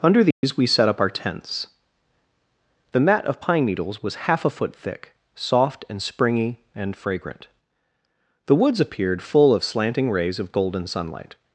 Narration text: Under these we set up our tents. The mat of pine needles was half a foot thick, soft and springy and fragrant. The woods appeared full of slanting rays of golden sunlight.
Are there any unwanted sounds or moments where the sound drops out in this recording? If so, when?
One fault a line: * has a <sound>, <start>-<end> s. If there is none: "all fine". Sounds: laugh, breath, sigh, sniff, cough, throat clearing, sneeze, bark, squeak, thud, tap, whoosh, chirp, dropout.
* has a dropout, 0.3-0.4 s